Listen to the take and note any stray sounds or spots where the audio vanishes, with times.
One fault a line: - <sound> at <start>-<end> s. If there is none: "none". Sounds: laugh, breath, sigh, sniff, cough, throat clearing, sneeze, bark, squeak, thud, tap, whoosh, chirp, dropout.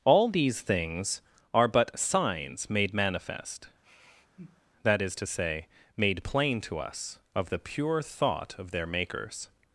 - sigh at 3.8-4.6 s